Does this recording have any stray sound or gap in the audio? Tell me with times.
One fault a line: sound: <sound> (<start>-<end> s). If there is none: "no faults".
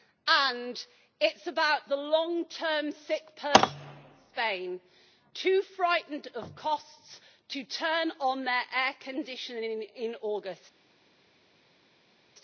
no faults